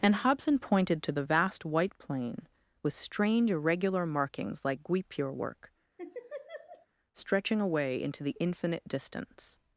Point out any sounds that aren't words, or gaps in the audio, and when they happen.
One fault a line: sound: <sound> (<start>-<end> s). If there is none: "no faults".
sound: laugh (6.0-6.9 s)